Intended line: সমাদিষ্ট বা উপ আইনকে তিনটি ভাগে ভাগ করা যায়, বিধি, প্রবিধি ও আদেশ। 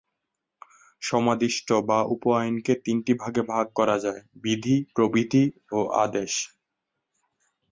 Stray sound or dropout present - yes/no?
no